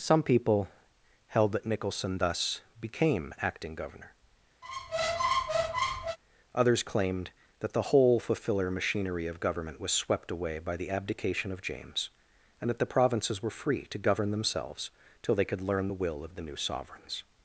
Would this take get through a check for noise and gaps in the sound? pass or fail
fail